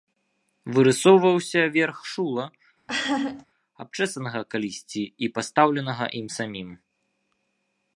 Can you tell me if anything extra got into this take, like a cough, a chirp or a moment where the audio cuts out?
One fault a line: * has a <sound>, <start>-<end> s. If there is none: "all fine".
* has a laugh, 2.9-3.5 s